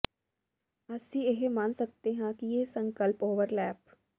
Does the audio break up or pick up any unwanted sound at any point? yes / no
no